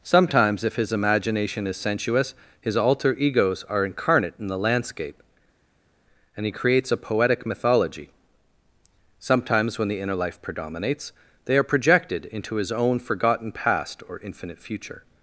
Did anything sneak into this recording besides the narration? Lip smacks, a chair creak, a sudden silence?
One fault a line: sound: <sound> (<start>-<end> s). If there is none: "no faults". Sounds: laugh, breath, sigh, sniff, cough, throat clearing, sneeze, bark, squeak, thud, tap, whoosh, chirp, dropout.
no faults